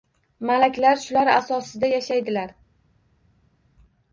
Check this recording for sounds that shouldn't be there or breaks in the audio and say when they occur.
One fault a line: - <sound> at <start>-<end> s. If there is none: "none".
none